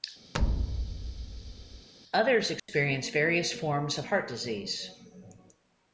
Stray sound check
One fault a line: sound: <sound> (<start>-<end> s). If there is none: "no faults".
sound: thud (0.3-1.9 s)
sound: dropout (2.6-2.7 s)